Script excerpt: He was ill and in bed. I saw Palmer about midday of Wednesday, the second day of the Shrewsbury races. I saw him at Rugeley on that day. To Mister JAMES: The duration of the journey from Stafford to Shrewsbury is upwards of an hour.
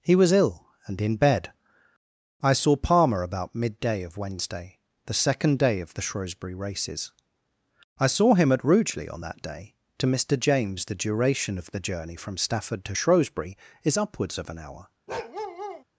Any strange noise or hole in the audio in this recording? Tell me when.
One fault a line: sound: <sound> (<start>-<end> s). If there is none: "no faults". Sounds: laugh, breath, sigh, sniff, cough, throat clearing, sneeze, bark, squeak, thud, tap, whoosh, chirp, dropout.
sound: bark (15.1-15.8 s)